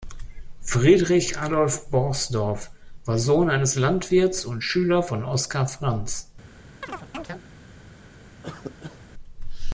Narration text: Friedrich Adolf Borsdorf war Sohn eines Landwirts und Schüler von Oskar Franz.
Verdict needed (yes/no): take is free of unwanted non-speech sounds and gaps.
no